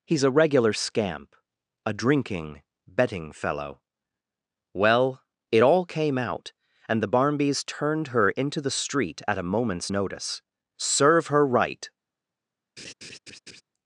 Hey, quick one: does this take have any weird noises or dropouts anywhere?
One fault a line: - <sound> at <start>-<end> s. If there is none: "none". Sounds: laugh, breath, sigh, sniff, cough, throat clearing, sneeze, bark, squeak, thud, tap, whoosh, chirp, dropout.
- laugh at 12.8-13.6 s